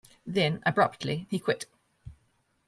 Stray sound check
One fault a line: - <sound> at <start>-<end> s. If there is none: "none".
none